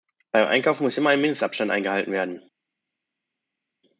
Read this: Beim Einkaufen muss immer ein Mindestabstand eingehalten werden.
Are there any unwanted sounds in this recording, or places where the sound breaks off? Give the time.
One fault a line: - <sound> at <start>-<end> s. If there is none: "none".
none